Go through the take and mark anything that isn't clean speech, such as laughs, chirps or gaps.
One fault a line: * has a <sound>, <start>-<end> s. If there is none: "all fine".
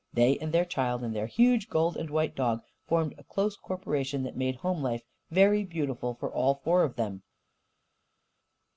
all fine